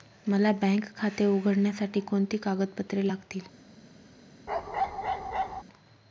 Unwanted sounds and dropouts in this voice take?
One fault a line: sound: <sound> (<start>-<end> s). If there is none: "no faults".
sound: bark (4.5-5.6 s)